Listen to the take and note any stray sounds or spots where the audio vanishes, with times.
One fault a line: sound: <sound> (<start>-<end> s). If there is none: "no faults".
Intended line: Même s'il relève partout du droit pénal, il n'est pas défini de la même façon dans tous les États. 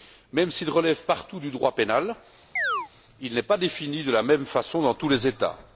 sound: chirp (2.6-2.9 s)